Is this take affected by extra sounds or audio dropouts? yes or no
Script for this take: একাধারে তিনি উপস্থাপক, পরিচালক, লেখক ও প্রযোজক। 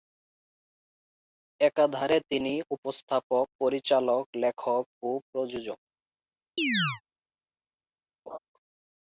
yes